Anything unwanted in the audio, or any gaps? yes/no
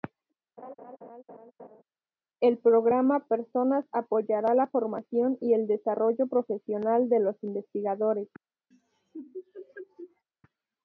yes